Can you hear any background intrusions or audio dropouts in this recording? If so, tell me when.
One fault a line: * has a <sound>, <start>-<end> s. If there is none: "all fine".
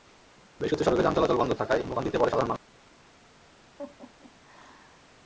* has a laugh, 3.8-5.1 s